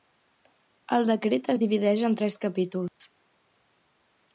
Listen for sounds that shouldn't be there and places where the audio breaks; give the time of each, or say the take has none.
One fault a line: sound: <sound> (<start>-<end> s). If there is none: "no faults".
sound: dropout (2.9-3.0 s)